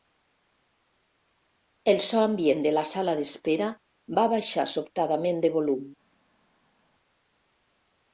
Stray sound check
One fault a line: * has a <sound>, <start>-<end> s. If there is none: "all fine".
all fine